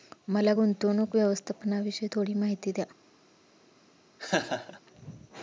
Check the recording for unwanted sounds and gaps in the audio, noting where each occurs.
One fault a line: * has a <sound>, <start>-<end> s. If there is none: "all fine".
* has a laugh, 4.2-4.8 s